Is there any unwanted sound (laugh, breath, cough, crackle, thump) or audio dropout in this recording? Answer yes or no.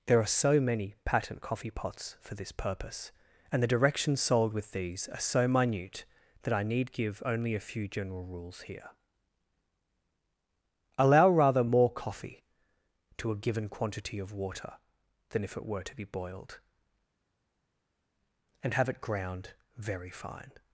no